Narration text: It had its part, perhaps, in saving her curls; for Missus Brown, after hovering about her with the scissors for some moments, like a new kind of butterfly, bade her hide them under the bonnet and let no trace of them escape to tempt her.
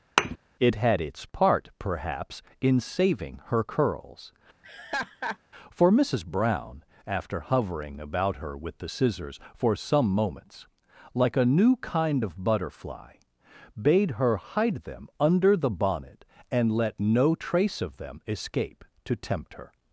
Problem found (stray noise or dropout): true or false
true